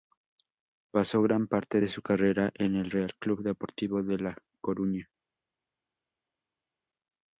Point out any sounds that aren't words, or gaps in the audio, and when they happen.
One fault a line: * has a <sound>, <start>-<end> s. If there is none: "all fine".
all fine